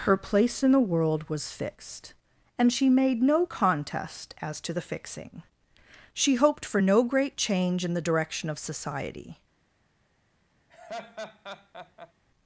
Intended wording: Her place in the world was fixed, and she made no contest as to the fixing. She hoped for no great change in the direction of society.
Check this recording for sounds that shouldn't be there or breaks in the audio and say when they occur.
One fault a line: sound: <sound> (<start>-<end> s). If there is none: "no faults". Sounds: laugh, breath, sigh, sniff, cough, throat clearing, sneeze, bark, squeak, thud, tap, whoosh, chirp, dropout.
sound: laugh (10.7-12.1 s)